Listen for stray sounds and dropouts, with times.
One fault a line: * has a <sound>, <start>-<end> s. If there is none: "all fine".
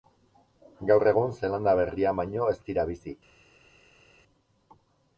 all fine